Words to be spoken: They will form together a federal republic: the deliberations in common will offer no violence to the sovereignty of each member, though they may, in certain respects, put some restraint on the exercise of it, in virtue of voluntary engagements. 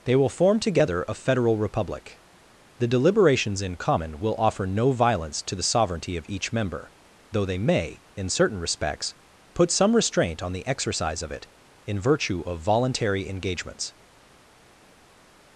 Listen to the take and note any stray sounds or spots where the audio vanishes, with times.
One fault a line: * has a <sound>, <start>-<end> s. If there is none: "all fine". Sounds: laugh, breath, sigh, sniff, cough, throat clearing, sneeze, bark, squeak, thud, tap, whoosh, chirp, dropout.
all fine